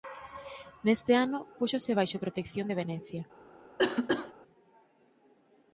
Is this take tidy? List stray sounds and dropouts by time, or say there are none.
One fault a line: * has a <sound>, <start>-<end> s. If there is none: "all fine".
* has a cough, 3.8-4.3 s